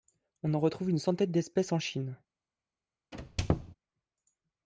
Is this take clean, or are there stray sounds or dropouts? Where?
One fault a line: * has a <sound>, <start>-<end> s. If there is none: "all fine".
* has a squeak, 3.1-3.7 s